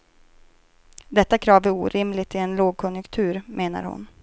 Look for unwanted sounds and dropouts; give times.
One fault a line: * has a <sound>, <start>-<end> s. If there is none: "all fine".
all fine